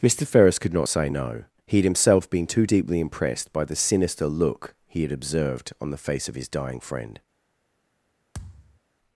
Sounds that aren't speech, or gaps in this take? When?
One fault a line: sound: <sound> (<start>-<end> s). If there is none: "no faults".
sound: thud (8.3-8.8 s)